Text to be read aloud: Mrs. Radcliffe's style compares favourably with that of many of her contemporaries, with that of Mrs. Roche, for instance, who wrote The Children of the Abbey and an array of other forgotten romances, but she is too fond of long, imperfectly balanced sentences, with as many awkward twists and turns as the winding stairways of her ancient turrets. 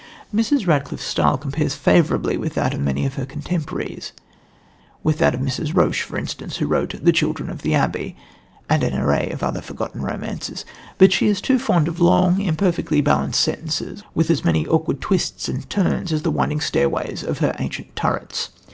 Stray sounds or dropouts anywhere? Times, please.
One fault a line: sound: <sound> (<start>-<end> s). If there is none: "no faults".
no faults